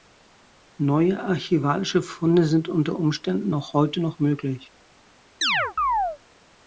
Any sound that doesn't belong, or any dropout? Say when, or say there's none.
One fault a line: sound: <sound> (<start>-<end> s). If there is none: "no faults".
sound: chirp (5.4-6.2 s)